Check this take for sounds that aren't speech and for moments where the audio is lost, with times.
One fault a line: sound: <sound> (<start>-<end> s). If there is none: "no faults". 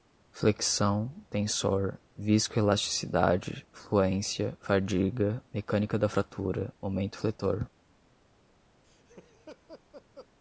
sound: laugh (8.8-10.3 s)